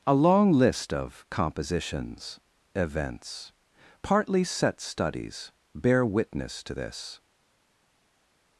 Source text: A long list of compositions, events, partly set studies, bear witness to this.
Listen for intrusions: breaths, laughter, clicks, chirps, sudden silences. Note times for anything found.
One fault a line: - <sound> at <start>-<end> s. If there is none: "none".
none